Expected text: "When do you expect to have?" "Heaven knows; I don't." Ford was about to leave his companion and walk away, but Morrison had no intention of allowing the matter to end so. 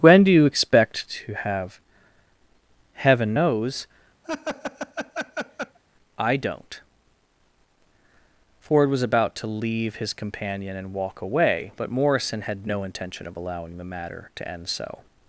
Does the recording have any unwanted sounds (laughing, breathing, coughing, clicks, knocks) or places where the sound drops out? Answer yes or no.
yes